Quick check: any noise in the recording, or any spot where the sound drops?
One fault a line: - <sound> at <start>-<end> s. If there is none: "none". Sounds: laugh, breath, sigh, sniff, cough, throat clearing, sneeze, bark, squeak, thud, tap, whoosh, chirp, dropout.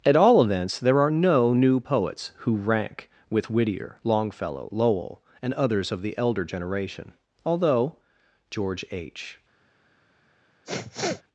- sniff at 10.6-11.2 s